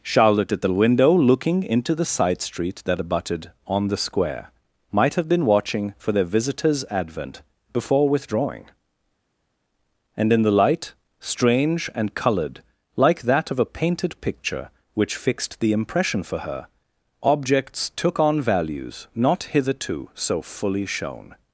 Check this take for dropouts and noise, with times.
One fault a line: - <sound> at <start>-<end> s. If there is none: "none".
none